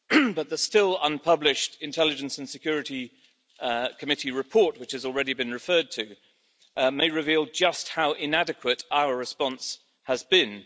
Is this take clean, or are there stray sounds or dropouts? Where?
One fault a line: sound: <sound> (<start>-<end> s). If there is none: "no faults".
no faults